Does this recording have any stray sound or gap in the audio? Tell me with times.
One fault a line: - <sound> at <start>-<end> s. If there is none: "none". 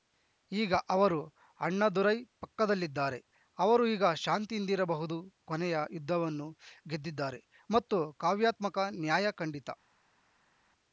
none